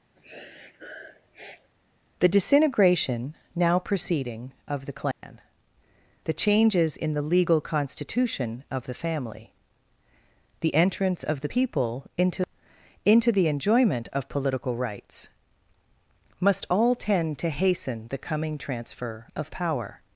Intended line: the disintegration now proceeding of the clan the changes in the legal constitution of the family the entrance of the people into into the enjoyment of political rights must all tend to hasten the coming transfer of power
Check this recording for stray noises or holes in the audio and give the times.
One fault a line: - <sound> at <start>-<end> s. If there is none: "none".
- sniff at 0.2-1.7 s
- dropout at 5.1-5.2 s